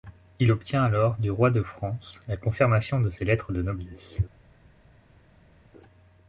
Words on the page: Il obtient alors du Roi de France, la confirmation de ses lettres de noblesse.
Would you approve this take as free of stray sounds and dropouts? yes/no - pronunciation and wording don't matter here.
yes